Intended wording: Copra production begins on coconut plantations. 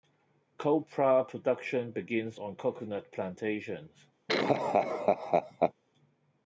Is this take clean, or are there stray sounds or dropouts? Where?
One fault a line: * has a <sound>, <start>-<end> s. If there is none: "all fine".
* has a laugh, 4.3-5.7 s